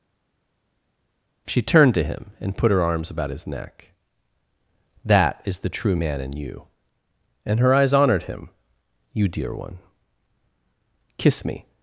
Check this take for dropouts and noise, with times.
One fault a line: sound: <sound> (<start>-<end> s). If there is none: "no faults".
no faults